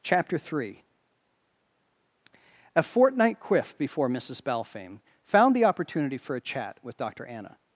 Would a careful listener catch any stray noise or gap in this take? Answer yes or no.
no